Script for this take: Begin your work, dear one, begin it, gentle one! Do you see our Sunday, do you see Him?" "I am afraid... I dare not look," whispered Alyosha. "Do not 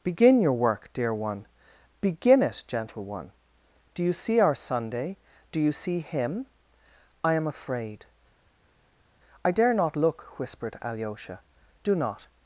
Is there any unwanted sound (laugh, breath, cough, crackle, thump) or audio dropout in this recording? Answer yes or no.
no